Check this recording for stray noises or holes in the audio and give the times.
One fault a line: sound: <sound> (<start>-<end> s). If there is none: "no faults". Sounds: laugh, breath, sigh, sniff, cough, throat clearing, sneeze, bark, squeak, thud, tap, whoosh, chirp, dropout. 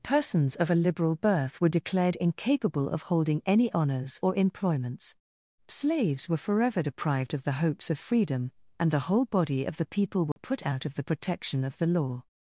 sound: dropout (10.3-10.4 s)